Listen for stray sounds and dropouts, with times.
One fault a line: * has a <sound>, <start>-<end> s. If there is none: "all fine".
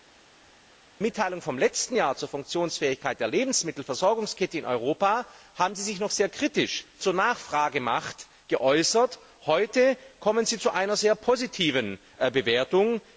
all fine